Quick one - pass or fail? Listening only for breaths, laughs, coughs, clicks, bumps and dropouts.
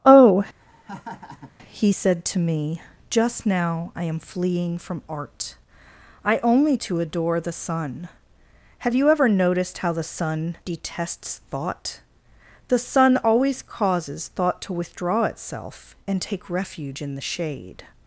fail